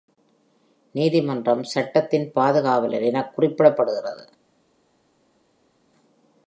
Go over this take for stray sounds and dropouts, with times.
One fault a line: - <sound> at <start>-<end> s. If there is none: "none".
none